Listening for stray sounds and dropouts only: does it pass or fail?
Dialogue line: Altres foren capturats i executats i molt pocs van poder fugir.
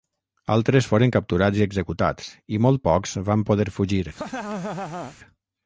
fail